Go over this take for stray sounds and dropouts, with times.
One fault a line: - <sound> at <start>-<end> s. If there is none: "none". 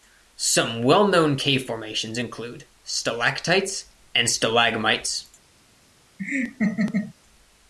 - laugh at 6.2-7.1 s